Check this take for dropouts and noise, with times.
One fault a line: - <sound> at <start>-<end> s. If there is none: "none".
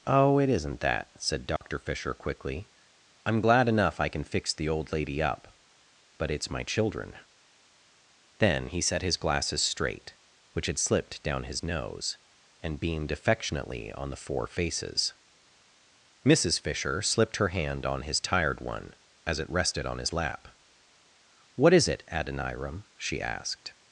- dropout at 1.6-1.6 s